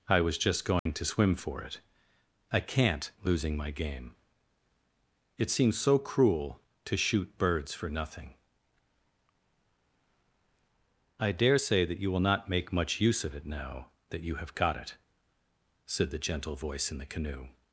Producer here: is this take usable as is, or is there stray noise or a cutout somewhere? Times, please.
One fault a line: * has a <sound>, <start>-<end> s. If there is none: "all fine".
* has a dropout, 0.8-0.9 s